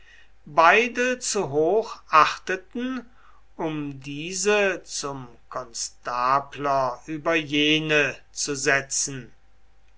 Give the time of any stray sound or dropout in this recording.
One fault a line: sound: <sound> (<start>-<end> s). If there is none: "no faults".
no faults